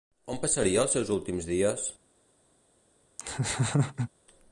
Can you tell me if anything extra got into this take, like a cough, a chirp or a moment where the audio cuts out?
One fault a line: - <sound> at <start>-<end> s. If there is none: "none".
- laugh at 3.2-4.1 s